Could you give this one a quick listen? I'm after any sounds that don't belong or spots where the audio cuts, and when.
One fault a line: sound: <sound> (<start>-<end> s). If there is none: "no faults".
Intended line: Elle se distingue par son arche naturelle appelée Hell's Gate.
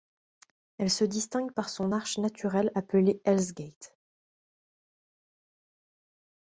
no faults